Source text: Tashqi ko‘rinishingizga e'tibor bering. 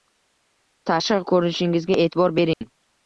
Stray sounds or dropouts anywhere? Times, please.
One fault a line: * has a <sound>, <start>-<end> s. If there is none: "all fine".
* has a dropout, 2.5-2.6 s